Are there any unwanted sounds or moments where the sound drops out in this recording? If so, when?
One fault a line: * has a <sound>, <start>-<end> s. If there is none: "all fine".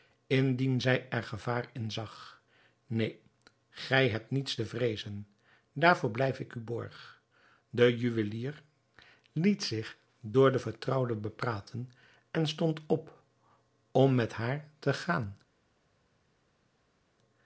all fine